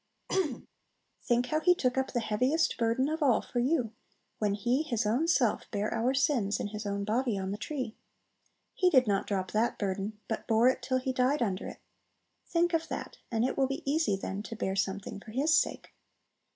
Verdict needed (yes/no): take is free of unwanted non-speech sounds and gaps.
no